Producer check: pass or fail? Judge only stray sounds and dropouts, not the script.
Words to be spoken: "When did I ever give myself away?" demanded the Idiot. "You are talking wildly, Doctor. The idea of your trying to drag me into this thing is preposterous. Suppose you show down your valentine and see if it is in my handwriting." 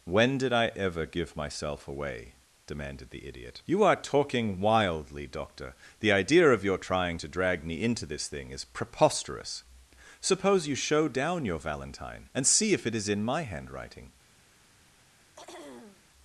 fail